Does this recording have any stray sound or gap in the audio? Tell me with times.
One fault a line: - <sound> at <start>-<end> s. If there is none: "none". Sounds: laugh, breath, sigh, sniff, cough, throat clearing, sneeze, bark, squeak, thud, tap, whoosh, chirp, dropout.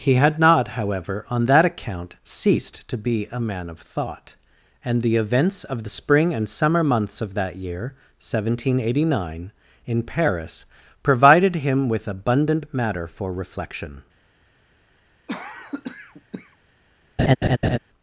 - cough at 15.3-16.6 s
- laugh at 17.2-17.8 s